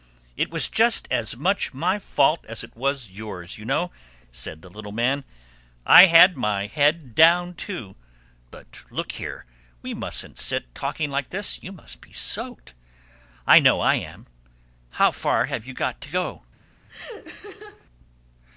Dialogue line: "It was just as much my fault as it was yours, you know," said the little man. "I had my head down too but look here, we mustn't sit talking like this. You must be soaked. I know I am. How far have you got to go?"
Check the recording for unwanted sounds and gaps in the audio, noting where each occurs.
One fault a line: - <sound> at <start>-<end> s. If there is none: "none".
- laugh at 16.9-17.9 s